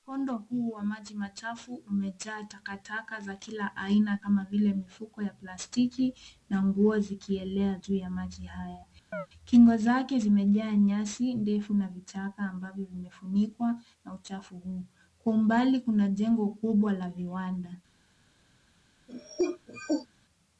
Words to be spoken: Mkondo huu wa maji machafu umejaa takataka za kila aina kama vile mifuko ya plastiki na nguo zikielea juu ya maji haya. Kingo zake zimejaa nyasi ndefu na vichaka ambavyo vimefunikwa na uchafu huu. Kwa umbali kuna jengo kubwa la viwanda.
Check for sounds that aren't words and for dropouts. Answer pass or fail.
fail